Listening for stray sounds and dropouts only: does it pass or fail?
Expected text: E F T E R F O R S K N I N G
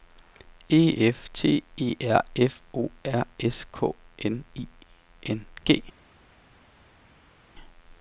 pass